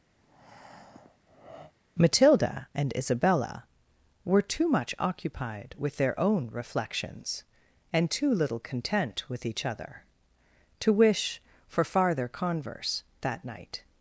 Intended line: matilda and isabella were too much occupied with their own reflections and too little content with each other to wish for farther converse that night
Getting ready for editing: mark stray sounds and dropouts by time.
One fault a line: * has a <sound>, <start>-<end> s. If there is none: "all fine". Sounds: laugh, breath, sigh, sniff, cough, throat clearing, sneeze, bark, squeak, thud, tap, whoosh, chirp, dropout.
* has a breath, 0.2-1.7 s